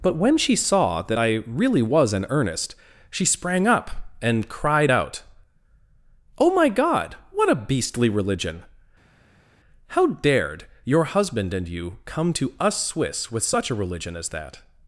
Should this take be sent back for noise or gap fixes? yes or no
no